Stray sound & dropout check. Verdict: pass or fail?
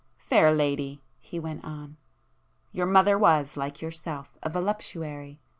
pass